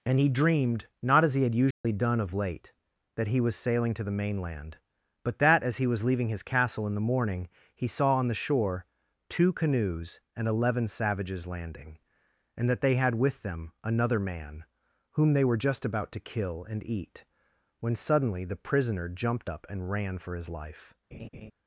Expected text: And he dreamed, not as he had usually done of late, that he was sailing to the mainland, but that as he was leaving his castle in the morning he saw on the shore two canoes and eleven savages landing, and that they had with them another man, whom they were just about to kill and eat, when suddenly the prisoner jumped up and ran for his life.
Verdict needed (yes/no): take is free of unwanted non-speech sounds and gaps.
no